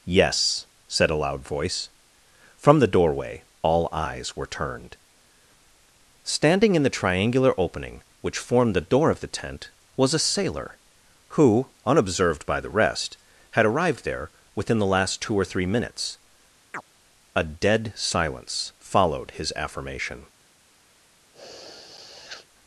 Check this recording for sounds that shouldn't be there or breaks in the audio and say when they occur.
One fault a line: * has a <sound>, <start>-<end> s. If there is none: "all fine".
* has a chirp, 16.7-16.8 s
* has a sniff, 21.3-22.5 s